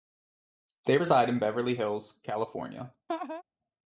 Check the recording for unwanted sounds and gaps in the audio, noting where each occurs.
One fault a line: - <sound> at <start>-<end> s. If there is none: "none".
- laugh at 3.1-3.4 s